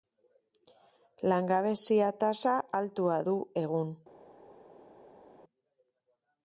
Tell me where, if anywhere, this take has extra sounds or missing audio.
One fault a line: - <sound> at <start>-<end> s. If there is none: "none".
none